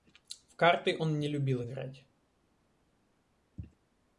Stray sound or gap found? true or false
false